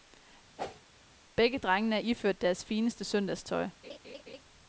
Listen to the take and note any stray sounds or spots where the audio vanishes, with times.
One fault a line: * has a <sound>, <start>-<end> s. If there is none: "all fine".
* has a whoosh, 0.6-0.8 s
* has a laugh, 3.8-4.4 s